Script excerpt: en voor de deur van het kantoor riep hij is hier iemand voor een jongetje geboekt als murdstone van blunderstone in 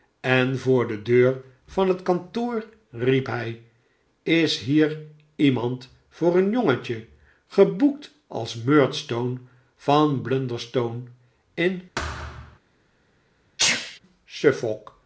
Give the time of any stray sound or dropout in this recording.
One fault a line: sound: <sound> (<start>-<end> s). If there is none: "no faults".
sound: thud (12.0-12.6 s)
sound: sneeze (13.6-14.0 s)